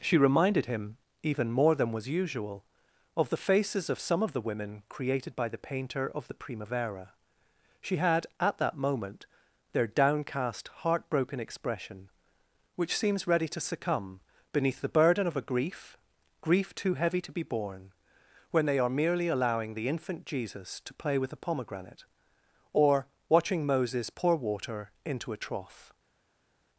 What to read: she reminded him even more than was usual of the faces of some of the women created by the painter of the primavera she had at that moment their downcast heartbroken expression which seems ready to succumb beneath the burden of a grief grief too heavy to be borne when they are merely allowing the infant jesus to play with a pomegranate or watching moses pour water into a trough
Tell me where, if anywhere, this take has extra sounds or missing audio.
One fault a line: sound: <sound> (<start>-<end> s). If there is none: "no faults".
no faults